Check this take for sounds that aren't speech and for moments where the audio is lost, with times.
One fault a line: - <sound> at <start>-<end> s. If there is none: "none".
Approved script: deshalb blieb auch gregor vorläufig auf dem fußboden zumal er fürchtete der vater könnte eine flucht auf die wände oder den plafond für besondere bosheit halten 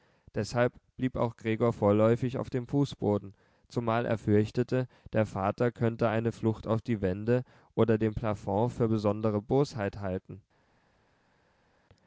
none